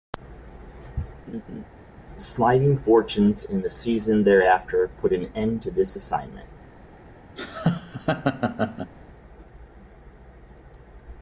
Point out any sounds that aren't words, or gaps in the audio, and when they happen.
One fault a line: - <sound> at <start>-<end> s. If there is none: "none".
- laugh at 1.3-1.6 s
- laugh at 7.4-8.9 s